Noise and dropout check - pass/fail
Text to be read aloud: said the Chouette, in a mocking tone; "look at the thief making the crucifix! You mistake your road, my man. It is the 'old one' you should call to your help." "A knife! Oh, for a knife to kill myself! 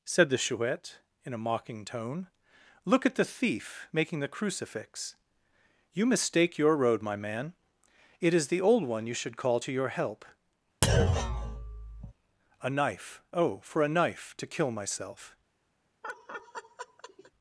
fail